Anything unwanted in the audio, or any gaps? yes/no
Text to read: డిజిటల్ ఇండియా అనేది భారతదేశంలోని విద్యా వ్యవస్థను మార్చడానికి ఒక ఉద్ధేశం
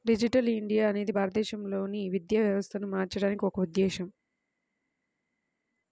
no